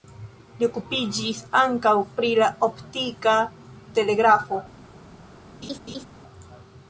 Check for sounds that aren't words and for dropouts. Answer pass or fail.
fail